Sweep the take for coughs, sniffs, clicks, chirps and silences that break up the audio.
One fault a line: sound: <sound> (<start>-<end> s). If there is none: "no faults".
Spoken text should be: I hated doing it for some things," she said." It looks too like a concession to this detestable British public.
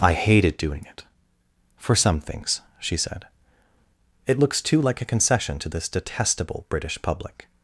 no faults